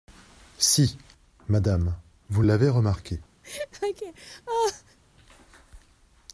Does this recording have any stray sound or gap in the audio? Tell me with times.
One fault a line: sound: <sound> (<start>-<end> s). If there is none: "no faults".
sound: laugh (3.4-5.0 s)